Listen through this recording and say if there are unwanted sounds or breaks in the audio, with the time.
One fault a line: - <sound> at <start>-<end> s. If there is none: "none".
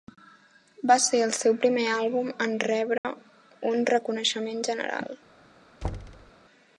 - dropout at 3.0-3.0 s
- thud at 5.8-6.3 s